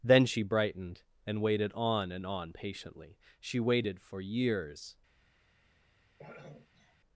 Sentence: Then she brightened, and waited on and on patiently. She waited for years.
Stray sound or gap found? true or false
true